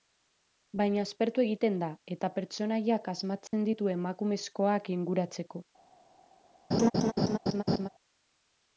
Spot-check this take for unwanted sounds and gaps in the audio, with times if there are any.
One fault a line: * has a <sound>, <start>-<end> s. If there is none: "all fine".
* has a dropout, 3.5-3.5 s
* has a laugh, 6.7-7.9 s